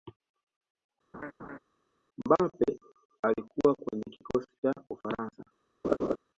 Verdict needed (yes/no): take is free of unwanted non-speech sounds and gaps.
no